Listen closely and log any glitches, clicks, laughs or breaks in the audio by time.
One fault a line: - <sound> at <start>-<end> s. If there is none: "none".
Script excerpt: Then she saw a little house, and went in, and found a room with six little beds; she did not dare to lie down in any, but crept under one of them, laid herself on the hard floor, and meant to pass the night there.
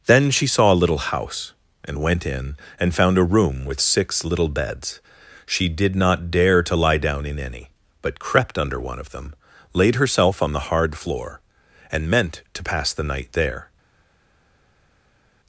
none